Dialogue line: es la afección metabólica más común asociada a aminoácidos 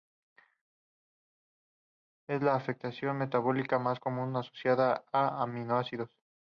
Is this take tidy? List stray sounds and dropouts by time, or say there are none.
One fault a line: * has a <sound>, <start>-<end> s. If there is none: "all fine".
all fine